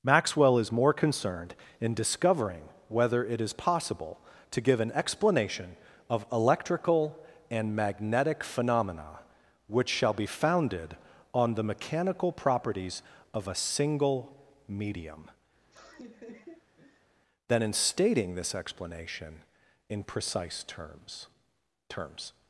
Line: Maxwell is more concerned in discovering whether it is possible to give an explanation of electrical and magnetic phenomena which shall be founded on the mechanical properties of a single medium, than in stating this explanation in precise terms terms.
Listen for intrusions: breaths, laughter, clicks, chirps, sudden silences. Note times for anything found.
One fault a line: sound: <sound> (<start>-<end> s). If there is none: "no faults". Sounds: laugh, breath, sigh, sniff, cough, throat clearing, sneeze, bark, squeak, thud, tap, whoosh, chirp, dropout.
sound: laugh (15.6-17.1 s)